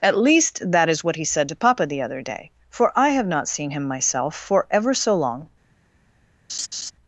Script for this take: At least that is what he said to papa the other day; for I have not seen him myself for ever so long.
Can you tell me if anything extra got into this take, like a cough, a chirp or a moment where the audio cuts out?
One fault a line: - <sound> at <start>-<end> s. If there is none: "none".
- laugh at 6.5-6.9 s